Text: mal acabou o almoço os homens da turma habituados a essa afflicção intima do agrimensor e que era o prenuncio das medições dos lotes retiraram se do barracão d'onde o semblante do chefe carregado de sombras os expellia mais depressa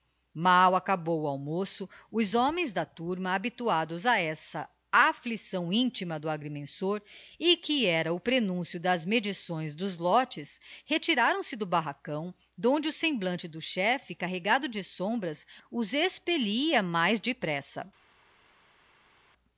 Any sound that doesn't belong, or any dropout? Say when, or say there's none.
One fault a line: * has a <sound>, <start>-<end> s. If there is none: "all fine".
all fine